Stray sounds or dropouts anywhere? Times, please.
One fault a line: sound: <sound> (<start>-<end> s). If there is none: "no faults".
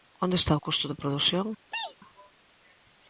sound: sneeze (1.7-2.0 s)